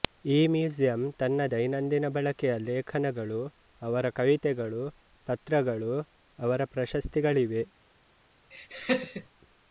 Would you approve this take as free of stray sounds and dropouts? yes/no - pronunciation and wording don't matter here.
no